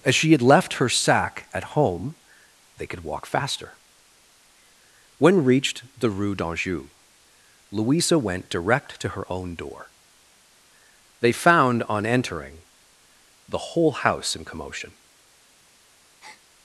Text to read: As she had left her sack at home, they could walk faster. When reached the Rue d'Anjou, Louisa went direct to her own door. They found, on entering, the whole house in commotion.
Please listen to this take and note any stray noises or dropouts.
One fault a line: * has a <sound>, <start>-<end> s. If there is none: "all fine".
* has a breath, 16.2-16.4 s